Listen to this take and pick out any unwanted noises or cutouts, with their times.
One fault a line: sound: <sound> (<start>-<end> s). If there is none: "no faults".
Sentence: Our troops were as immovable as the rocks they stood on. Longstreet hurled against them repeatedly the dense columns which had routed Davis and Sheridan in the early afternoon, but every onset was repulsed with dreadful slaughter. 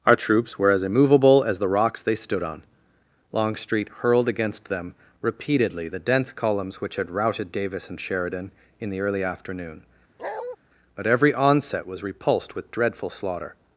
sound: bark (10.2-10.6 s)